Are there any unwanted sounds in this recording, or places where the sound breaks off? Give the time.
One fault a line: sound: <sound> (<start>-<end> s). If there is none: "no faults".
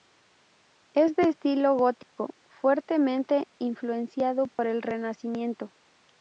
sound: dropout (2.0-2.2 s)
sound: dropout (4.5-4.6 s)